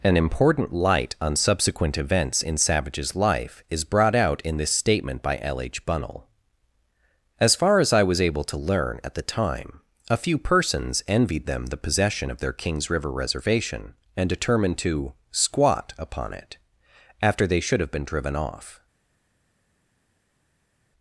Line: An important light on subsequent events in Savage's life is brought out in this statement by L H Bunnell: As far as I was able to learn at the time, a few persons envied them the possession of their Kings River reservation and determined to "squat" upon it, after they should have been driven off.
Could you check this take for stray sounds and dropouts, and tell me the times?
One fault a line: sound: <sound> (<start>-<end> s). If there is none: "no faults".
no faults